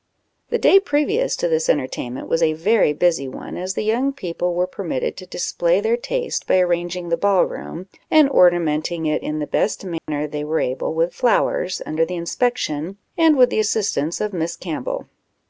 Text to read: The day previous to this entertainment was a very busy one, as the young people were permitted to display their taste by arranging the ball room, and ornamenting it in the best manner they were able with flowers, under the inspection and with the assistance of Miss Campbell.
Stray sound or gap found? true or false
true